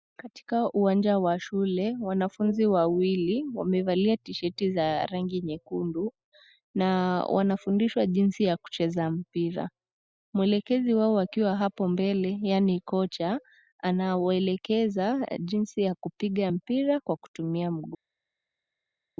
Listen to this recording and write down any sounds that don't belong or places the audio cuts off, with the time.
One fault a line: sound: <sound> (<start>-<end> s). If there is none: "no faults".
no faults